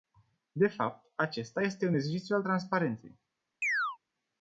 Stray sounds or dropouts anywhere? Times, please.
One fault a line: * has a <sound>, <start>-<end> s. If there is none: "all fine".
* has a chirp, 3.6-4.0 s